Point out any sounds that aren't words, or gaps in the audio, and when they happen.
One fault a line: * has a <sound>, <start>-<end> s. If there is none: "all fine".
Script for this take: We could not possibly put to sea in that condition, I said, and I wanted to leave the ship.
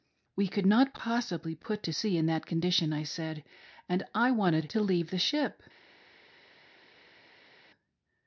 all fine